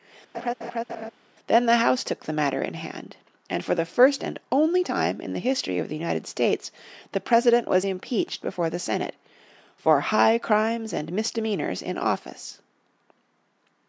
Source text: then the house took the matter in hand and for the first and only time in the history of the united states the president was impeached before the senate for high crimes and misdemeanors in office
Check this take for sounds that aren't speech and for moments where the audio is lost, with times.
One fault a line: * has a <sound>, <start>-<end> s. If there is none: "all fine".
* has a laugh, 0.3-1.1 s